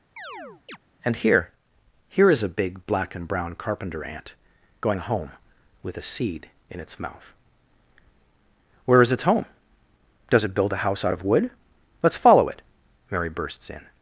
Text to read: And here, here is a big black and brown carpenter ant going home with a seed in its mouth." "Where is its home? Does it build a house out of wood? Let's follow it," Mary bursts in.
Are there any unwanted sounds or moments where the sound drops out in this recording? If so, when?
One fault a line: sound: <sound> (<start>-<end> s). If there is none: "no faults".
sound: chirp (0.2-0.8 s)